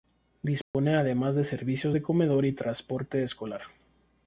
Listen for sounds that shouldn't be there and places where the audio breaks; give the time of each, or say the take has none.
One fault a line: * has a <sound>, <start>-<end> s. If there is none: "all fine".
* has a dropout, 0.6-0.7 s